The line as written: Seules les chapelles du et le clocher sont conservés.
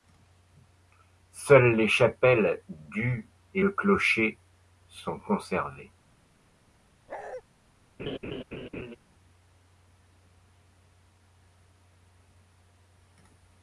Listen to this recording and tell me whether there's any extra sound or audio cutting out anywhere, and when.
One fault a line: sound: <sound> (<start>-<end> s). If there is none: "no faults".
sound: bark (7.1-7.4 s)
sound: laugh (8.0-9.0 s)